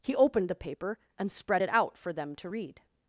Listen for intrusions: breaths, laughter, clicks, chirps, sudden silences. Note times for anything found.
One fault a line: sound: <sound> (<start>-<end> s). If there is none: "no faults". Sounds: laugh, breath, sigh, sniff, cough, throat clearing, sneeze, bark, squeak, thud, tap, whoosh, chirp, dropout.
no faults